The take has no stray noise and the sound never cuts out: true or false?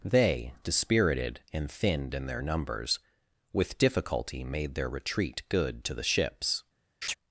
false